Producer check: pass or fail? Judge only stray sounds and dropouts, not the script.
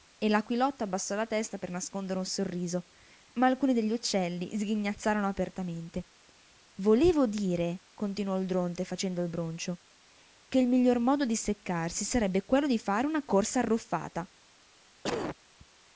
fail